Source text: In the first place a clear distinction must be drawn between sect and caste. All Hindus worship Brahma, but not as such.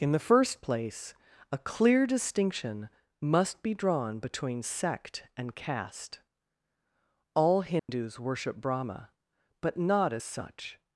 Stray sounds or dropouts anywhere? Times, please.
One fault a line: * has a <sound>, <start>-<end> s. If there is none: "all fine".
* has a dropout, 7.8-7.9 s